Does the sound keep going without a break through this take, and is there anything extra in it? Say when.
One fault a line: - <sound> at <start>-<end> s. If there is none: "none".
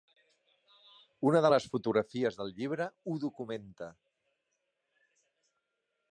none